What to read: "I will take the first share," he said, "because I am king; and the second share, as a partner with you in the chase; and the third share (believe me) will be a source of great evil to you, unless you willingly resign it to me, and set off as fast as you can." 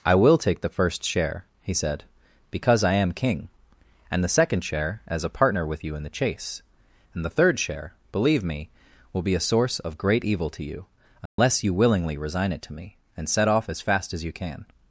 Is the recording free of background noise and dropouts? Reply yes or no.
no